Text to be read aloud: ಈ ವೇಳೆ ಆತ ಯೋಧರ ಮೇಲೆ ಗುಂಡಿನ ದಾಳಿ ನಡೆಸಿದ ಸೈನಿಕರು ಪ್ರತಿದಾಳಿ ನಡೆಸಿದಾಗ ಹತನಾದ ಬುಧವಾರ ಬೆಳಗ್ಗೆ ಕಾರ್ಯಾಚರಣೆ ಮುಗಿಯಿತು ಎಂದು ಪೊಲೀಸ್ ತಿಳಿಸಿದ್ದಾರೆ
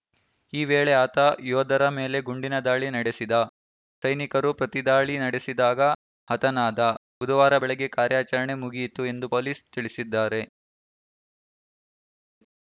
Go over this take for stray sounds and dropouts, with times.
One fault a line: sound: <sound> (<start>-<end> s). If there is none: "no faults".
no faults